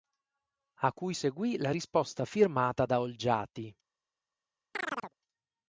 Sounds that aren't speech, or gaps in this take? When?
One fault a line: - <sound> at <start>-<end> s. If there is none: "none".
- chirp at 4.7-5.1 s